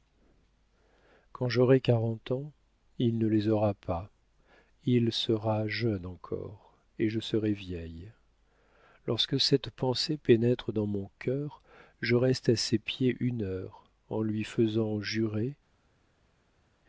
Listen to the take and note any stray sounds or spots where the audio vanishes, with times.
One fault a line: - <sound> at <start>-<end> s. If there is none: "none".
none